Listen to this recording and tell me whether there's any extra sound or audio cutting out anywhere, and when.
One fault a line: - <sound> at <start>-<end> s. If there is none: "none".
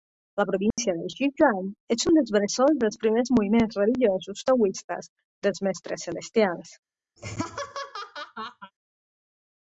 - dropout at 0.7-0.8 s
- laugh at 7.2-8.7 s